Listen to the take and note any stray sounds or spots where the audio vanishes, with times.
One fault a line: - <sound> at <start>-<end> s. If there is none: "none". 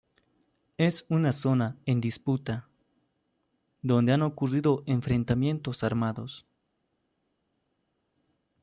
none